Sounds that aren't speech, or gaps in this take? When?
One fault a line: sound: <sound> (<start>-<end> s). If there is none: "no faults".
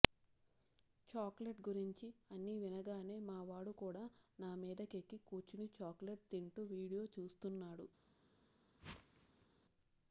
sound: whoosh (8.8-9.5 s)